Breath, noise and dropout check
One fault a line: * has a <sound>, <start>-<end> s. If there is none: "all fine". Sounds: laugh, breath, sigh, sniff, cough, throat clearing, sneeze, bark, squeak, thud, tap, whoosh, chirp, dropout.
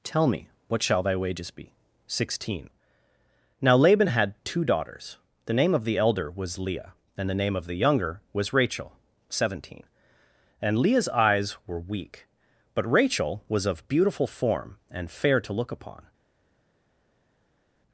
all fine